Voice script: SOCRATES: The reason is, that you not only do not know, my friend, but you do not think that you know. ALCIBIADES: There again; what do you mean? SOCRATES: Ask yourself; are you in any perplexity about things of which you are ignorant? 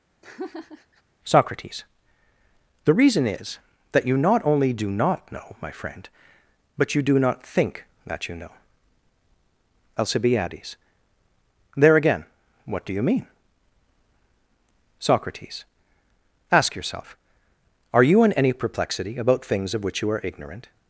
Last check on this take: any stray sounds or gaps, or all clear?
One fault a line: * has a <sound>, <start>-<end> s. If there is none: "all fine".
* has a laugh, 0.2-1.0 s